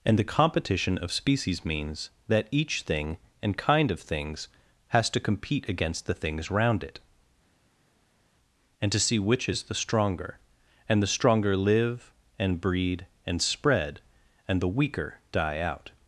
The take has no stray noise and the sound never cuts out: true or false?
true